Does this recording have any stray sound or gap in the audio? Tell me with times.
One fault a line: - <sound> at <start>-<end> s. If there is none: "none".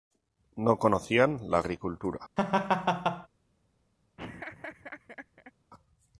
- laugh at 2.4-3.3 s
- laugh at 4.2-5.5 s